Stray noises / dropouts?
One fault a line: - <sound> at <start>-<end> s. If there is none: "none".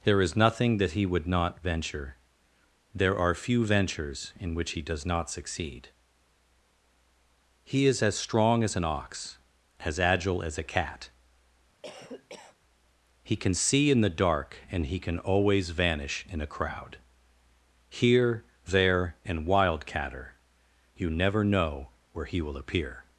- cough at 11.8-12.6 s